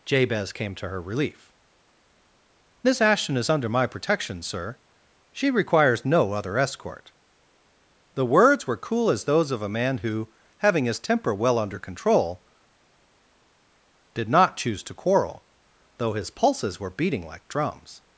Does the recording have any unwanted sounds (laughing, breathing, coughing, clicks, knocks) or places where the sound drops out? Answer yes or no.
no